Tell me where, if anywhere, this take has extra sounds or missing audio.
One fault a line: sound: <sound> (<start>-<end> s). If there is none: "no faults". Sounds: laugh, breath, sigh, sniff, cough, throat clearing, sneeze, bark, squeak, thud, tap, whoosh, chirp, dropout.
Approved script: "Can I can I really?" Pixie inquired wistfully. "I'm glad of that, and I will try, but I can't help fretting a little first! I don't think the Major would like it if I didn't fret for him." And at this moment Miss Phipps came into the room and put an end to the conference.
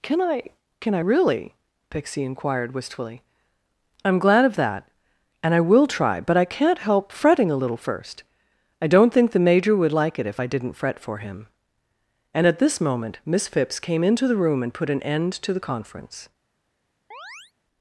sound: chirp (17.1-17.5 s)